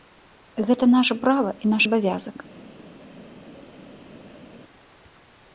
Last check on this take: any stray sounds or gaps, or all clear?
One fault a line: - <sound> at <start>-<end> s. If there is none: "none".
none